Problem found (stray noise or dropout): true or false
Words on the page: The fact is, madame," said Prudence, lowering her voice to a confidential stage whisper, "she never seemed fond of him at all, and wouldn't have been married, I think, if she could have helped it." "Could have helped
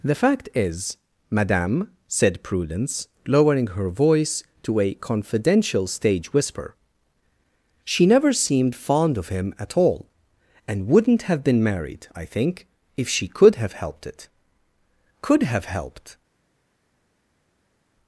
false